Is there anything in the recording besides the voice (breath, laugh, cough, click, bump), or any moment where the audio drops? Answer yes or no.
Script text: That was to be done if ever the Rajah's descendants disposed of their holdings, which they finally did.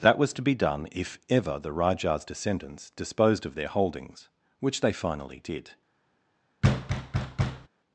yes